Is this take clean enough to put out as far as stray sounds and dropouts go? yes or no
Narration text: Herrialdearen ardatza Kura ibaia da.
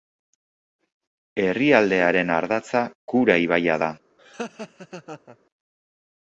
no